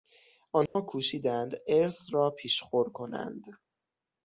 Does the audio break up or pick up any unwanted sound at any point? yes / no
yes